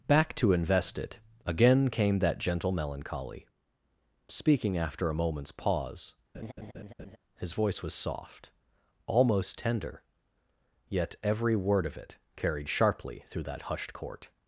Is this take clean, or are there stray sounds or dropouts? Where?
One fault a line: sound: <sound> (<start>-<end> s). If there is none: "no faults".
sound: laugh (6.3-7.2 s)